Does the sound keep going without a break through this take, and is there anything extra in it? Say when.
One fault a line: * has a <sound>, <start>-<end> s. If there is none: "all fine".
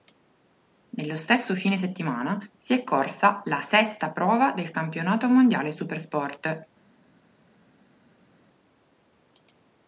all fine